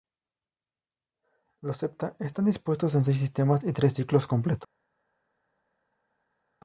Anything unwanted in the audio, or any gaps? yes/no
no